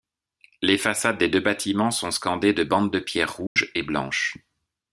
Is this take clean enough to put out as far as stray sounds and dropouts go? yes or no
no